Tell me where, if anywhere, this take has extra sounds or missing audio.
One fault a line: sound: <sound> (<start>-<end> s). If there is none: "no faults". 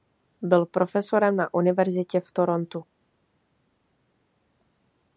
no faults